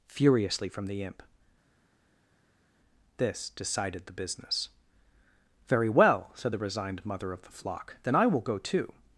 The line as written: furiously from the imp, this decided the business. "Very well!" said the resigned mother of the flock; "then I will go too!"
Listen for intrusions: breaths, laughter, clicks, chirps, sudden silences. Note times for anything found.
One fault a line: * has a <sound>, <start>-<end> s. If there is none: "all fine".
all fine